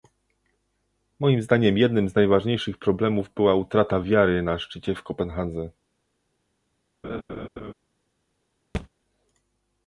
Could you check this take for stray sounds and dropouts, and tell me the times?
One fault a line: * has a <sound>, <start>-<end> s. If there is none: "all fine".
* has a laugh, 7.0-7.7 s
* has a thud, 8.7-8.9 s